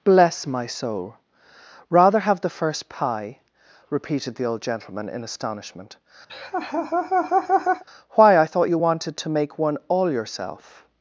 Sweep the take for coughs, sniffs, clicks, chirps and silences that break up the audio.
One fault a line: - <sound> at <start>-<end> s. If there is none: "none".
- laugh at 6.3-7.8 s